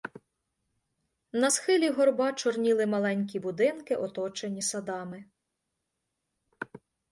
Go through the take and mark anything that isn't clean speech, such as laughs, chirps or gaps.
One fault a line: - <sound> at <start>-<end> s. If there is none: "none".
none